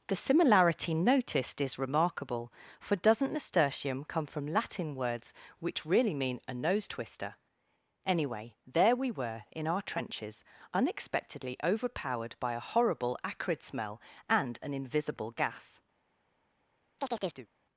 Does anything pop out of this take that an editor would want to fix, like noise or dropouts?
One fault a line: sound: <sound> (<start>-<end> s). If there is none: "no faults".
sound: chirp (17.0-17.5 s)